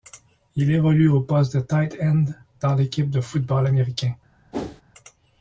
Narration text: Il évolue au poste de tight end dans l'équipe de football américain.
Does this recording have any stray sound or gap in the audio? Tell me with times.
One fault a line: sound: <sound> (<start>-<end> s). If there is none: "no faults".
sound: whoosh (4.5-4.8 s)